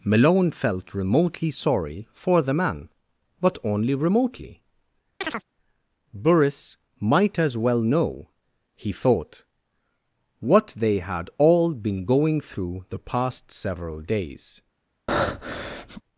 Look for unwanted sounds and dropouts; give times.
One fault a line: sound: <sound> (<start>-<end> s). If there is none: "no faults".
sound: chirp (5.2-5.4 s)
sound: breath (15.1-16.0 s)